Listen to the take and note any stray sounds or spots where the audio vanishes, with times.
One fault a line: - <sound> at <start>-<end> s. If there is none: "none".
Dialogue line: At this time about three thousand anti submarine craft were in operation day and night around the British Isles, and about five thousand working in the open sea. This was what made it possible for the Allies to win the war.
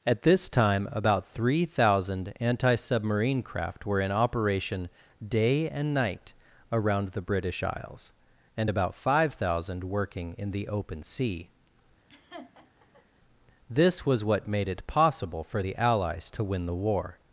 - laugh at 12.1-13.1 s